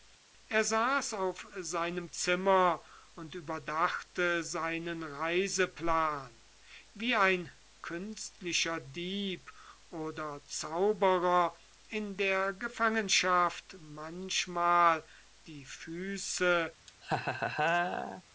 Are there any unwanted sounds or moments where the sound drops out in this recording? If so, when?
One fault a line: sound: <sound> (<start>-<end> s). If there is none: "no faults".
sound: laugh (16.9-18.2 s)